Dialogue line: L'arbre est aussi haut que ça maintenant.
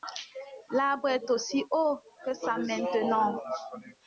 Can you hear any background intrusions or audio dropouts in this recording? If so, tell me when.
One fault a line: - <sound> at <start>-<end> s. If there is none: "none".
none